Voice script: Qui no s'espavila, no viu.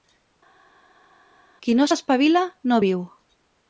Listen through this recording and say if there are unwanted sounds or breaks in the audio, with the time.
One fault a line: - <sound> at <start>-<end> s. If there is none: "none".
none